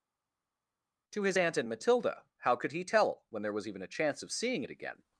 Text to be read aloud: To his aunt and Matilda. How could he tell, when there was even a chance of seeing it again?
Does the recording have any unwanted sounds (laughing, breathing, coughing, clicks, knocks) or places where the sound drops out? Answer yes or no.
no